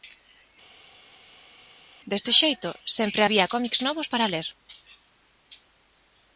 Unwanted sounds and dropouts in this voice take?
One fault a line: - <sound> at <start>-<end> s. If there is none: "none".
none